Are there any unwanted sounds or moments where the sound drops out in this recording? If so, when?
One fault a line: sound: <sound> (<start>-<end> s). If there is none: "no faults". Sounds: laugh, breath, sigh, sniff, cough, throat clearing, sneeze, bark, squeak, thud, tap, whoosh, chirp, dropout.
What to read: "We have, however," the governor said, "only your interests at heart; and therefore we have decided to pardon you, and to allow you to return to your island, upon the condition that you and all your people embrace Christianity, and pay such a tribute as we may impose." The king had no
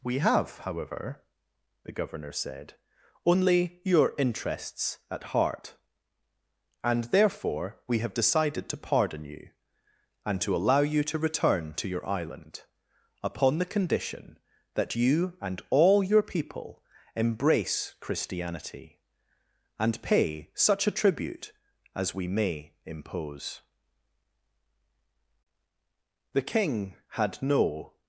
no faults